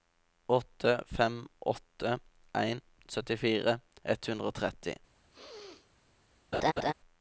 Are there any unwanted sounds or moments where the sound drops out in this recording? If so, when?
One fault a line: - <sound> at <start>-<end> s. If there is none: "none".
- sneeze at 5.3-5.9 s
- laugh at 6.5-6.9 s